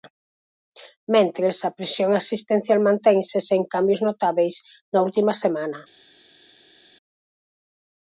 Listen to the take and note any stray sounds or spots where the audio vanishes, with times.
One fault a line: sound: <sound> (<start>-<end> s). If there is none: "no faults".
no faults